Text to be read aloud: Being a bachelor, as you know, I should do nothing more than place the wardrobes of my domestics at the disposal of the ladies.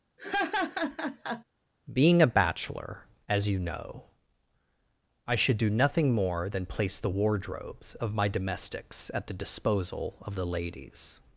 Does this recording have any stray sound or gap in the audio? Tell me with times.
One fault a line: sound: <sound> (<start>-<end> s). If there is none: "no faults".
sound: laugh (0.2-1.4 s)